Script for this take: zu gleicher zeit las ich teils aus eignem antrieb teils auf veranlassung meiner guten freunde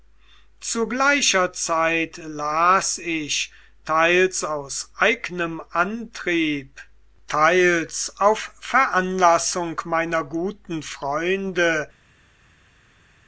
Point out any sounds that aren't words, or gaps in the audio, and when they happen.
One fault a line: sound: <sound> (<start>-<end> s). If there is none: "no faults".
no faults